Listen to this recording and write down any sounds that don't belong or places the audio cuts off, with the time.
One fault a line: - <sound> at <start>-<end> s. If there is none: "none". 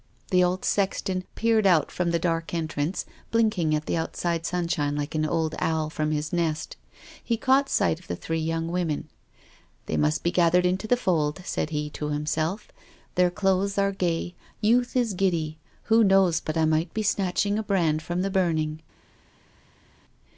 none